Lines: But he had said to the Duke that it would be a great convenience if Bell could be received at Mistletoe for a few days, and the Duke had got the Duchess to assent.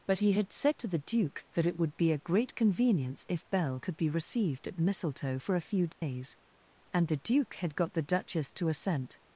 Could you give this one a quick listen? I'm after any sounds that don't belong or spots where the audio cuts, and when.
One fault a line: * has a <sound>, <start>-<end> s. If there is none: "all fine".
* has a dropout, 5.9-6.0 s